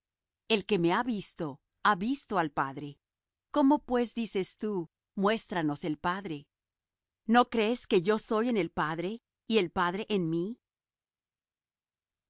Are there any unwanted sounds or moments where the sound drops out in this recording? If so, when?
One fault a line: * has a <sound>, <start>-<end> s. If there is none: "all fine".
all fine